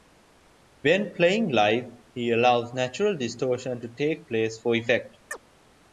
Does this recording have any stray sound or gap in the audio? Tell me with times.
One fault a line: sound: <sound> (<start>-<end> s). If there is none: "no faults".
sound: chirp (5.3-5.4 s)